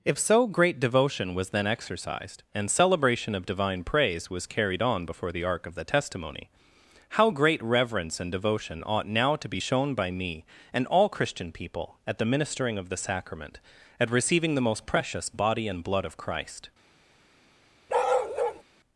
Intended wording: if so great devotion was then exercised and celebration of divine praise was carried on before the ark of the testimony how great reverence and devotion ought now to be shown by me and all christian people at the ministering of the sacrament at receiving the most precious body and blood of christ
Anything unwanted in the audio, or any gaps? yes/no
yes